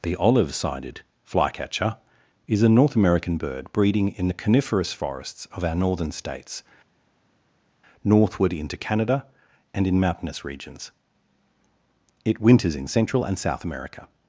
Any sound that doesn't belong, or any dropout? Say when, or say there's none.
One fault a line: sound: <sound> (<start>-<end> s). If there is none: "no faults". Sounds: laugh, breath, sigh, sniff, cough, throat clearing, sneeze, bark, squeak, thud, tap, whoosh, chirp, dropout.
no faults